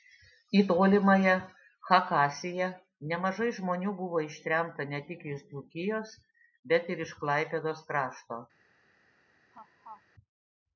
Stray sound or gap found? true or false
true